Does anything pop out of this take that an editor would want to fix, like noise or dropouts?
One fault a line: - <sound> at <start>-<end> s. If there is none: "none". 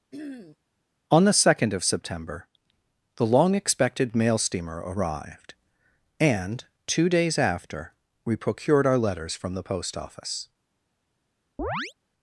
- throat clearing at 0.1-0.6 s
- chirp at 11.6-11.9 s